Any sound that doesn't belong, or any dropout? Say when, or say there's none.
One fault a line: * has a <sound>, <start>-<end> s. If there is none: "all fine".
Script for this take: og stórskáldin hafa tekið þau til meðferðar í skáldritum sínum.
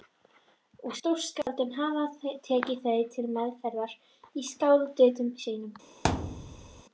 * has a dropout, 1.4-1.5 s
* has a thud, 6.0-6.8 s